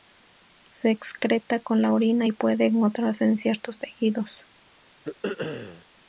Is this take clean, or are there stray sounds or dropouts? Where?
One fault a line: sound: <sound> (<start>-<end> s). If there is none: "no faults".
sound: throat clearing (5.1-5.9 s)